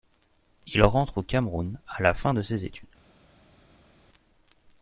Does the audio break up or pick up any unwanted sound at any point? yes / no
no